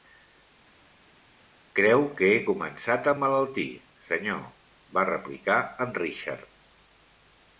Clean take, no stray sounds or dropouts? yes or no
yes